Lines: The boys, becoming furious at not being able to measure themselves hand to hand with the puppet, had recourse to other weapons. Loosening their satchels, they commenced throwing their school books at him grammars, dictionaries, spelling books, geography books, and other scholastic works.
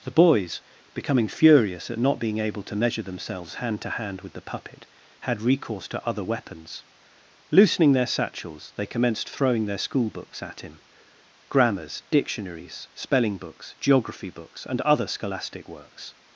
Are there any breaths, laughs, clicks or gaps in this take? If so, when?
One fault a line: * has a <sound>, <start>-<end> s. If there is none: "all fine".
all fine